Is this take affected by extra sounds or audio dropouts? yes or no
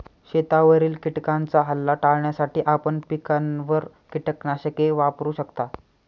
no